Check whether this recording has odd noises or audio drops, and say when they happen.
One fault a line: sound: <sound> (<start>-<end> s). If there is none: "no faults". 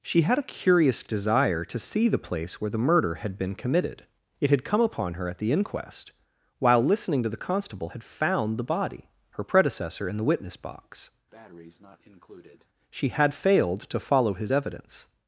sound: breath (11.3-12.7 s)